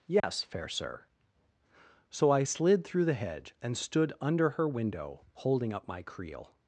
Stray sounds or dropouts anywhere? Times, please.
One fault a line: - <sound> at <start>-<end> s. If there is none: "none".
- dropout at 0.2-0.2 s